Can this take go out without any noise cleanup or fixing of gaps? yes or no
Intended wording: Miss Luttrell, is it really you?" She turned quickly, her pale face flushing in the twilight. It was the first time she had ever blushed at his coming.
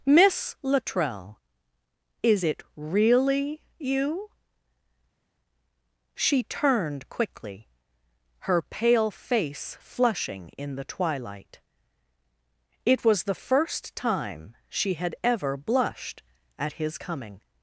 yes